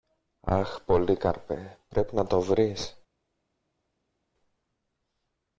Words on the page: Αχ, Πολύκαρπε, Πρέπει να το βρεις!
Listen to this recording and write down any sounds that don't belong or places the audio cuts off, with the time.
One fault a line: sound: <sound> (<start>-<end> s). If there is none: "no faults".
no faults